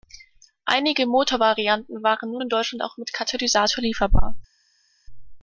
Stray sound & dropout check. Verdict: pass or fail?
pass